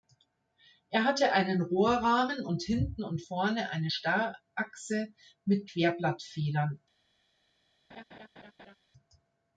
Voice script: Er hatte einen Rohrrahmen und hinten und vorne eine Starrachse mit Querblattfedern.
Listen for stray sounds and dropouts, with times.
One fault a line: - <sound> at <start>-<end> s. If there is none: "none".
- laugh at 7.9-8.8 s